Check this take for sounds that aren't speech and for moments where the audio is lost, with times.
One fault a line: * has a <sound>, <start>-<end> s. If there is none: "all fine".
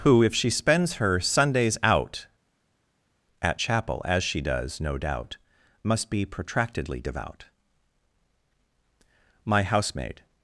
all fine